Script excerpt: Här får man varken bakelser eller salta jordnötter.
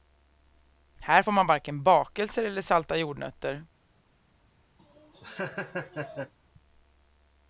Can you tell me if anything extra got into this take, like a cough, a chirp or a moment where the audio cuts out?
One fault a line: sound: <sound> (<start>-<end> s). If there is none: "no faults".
sound: laugh (4.8-6.3 s)